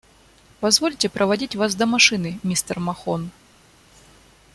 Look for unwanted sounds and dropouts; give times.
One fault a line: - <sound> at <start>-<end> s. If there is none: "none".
none